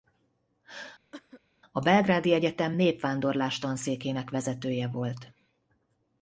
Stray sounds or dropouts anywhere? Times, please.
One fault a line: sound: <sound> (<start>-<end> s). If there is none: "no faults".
sound: cough (1.1-1.4 s)